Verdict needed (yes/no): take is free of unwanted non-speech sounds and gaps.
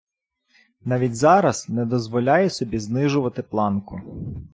yes